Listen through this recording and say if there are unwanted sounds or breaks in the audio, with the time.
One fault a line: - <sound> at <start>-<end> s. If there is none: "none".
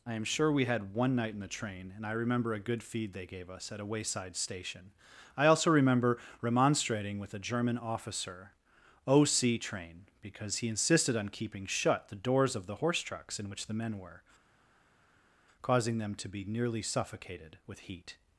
none